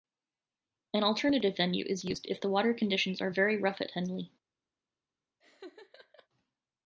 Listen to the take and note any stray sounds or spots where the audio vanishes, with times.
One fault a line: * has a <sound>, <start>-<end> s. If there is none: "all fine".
* has a laugh, 5.4-6.3 s